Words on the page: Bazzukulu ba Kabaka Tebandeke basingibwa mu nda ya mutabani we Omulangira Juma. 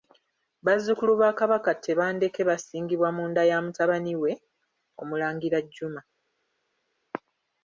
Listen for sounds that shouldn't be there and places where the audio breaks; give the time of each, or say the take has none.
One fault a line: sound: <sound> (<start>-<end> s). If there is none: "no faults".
no faults